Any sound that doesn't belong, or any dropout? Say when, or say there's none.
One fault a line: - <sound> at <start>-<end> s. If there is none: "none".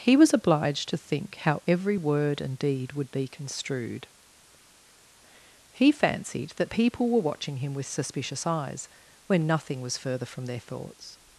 none